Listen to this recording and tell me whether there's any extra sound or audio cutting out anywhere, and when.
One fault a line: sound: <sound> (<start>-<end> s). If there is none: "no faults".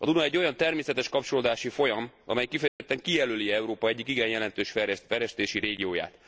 sound: dropout (2.7-2.8 s)